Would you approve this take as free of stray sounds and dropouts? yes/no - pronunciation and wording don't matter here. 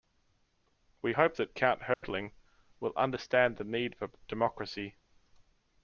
no